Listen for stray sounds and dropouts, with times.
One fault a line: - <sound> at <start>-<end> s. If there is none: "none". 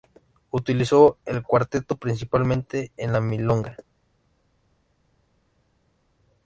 none